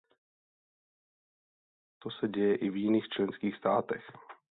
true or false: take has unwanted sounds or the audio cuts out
false